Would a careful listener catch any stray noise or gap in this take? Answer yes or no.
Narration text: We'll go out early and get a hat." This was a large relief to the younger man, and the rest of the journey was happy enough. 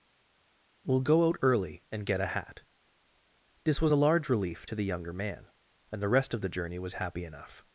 no